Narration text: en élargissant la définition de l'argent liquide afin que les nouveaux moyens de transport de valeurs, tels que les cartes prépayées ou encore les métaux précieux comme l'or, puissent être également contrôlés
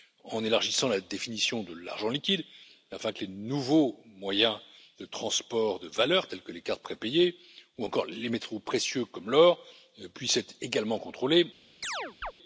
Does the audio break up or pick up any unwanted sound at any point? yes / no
yes